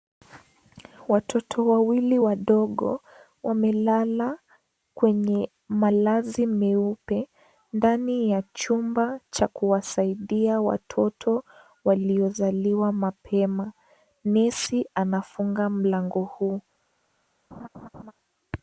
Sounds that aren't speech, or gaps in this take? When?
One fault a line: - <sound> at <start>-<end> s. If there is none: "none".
- laugh at 17.5-18.1 s